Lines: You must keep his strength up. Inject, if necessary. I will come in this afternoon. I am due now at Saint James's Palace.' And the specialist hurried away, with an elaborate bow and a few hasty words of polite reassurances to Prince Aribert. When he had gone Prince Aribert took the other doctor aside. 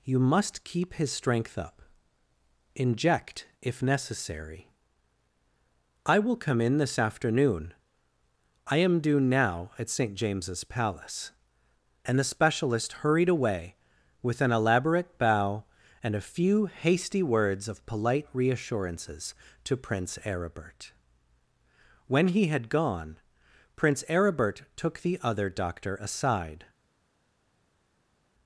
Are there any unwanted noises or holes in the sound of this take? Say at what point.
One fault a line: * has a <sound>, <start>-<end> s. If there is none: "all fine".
all fine